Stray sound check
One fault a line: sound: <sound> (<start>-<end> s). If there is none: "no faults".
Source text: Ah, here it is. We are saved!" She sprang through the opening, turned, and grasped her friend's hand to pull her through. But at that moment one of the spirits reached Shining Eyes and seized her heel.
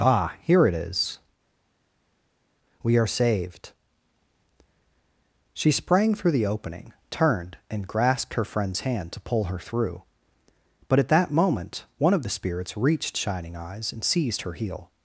no faults